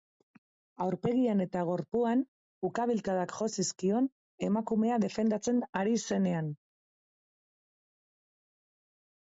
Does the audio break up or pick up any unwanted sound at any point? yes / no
no